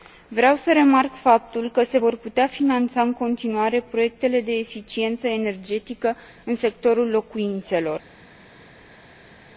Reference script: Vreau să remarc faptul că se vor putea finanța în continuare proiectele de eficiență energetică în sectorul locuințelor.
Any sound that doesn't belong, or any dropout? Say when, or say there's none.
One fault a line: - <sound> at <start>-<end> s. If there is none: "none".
none